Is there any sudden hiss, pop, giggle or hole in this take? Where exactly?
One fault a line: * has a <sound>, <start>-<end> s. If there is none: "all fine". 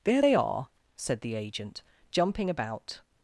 all fine